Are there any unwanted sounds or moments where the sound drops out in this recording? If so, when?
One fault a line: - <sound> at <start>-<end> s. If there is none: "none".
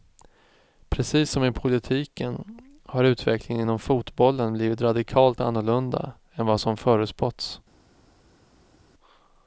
none